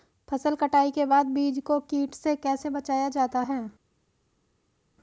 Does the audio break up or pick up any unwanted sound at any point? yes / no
no